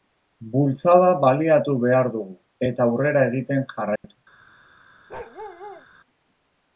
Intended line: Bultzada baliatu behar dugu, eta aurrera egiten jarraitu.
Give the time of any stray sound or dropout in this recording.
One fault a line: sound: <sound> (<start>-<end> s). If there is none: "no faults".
sound: dropout (4.0-4.0 s)
sound: bark (5.1-5.9 s)